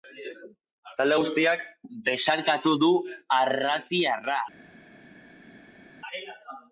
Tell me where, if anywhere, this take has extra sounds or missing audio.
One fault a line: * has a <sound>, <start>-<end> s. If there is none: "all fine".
all fine